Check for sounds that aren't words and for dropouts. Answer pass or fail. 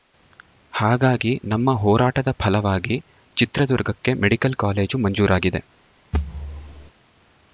fail